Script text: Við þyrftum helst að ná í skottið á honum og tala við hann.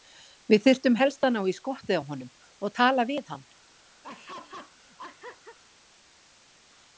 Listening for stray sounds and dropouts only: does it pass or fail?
fail